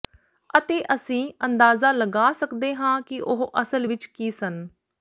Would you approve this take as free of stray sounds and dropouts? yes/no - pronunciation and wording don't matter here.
yes